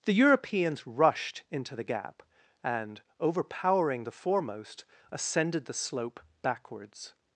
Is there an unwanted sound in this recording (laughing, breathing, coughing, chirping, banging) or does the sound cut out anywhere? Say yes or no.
no